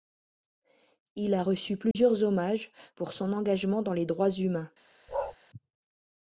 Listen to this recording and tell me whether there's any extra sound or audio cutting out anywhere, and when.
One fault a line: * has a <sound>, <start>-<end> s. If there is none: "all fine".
* has a dropout, 1.9-2.0 s
* has a bark, 5.1-5.4 s